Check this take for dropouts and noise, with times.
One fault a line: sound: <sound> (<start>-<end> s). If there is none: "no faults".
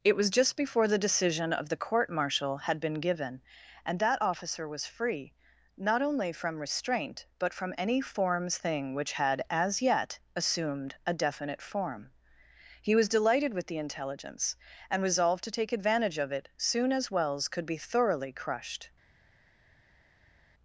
no faults